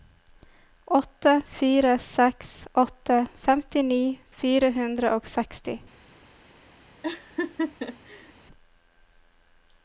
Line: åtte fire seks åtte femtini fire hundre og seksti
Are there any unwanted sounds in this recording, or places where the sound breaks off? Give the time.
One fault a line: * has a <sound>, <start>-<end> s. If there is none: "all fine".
* has a laugh, 7.0-8.3 s